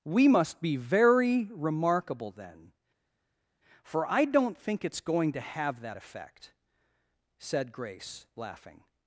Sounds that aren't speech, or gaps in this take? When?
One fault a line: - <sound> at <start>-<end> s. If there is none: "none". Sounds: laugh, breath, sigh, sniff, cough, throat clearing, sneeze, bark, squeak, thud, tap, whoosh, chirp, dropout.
none